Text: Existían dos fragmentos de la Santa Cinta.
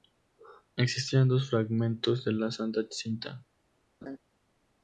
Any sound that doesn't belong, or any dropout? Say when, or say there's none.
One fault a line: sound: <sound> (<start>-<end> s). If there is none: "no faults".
sound: laugh (4.0-4.2 s)